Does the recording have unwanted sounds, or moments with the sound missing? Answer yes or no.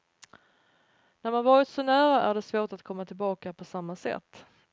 no